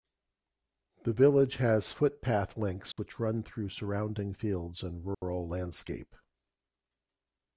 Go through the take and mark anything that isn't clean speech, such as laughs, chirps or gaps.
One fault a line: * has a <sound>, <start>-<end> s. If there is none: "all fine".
* has a dropout, 2.9-3.0 s
* has a dropout, 5.1-5.2 s